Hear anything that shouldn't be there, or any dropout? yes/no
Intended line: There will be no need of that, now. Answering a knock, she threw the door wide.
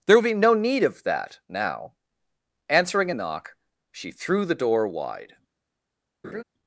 yes